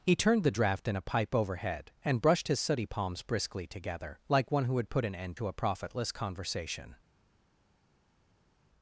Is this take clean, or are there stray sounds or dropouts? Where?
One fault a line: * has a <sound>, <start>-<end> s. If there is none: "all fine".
all fine